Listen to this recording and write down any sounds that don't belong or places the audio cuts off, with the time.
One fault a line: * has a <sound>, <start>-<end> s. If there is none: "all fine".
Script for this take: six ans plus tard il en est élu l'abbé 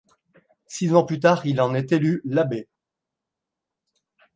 all fine